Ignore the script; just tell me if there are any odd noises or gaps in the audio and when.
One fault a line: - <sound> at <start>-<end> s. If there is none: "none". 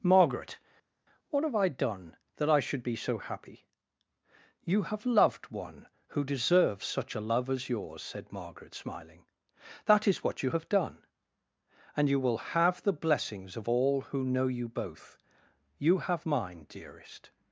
none